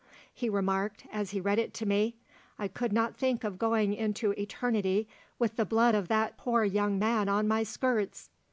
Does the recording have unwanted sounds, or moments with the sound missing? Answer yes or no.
no